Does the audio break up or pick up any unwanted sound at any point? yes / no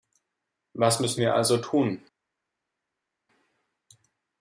no